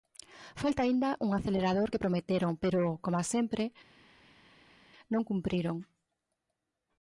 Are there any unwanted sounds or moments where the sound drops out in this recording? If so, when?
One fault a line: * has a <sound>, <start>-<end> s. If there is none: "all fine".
all fine